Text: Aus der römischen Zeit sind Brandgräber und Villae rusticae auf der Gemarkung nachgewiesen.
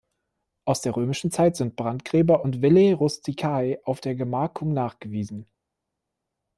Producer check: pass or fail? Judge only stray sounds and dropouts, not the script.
pass